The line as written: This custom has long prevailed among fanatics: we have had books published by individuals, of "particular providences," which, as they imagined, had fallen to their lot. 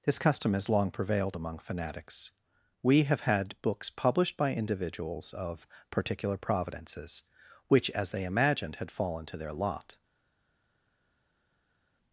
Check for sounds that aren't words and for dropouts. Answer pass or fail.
pass